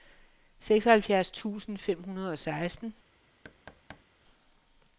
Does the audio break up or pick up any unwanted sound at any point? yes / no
yes